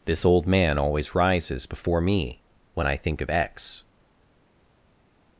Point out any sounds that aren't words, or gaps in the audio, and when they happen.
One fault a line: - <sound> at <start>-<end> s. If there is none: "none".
none